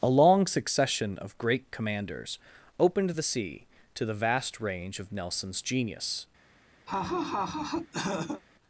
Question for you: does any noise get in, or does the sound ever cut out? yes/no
yes